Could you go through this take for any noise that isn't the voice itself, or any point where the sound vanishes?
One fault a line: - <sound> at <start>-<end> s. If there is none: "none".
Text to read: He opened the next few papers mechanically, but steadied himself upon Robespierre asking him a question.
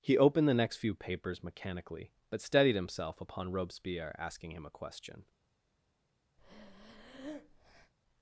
- breath at 6.4-7.9 s